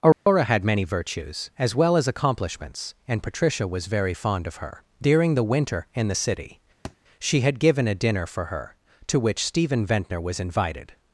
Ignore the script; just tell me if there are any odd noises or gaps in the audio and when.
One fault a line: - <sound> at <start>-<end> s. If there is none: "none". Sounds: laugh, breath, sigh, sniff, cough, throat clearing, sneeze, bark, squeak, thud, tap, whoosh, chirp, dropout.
- dropout at 0.1-0.3 s
- thud at 6.8-7.0 s